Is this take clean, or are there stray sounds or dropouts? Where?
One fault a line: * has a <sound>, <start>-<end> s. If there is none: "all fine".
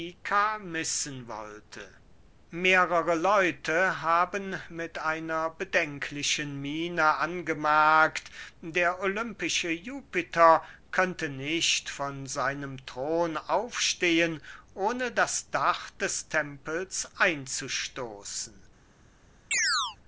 * has a chirp, 19.5-20.0 s